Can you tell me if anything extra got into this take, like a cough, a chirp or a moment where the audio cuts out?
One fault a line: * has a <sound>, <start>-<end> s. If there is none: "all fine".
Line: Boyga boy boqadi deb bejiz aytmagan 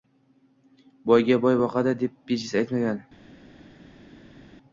all fine